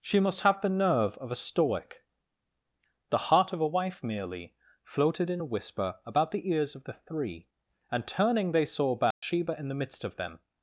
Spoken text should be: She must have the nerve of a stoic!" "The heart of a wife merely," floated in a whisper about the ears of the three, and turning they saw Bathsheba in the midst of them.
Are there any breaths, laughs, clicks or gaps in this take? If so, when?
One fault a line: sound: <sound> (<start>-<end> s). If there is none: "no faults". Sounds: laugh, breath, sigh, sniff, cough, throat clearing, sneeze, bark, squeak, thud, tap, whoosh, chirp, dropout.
sound: dropout (9.1-9.2 s)